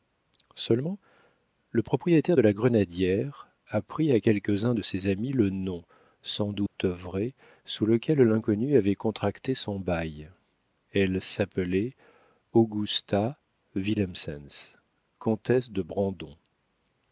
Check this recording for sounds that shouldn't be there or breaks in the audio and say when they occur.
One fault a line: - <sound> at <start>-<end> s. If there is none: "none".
- dropout at 6.7-6.8 s